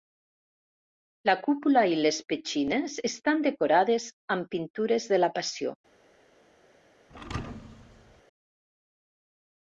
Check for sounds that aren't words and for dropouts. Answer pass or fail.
fail